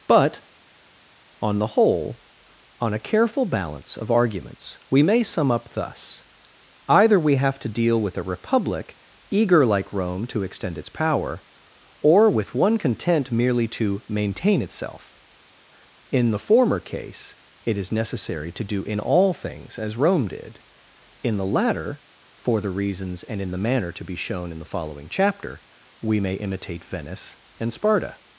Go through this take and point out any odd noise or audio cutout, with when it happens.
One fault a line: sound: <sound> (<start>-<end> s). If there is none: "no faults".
no faults